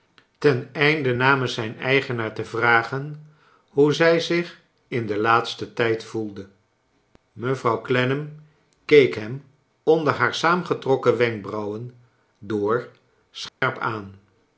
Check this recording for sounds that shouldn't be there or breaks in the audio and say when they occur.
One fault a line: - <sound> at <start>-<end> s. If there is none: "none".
- dropout at 13.5-13.6 s